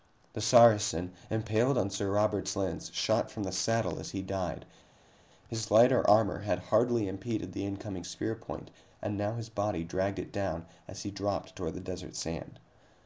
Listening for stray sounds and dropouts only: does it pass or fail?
pass